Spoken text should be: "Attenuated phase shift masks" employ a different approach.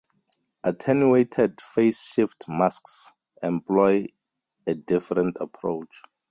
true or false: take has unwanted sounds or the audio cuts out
false